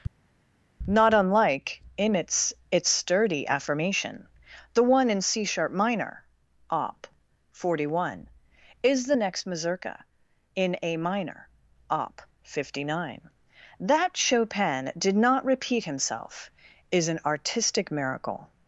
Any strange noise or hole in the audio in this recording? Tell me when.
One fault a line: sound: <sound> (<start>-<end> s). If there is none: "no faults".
no faults